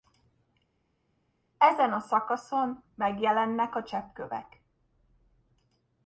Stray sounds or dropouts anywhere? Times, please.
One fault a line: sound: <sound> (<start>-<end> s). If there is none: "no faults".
no faults